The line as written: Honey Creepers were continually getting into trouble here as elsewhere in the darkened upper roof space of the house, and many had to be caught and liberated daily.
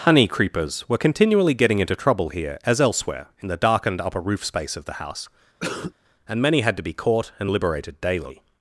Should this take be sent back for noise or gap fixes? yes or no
yes